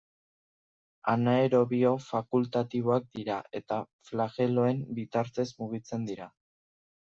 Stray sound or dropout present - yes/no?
no